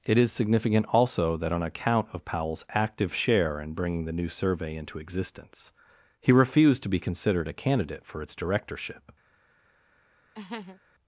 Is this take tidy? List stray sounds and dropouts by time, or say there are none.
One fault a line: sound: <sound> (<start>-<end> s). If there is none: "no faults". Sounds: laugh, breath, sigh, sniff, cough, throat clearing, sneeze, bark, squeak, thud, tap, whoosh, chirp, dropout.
sound: laugh (10.3-10.8 s)